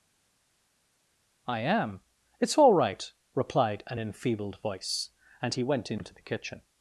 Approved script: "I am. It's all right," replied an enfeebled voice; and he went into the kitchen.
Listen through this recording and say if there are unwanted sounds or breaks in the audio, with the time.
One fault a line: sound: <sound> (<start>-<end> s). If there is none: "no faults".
no faults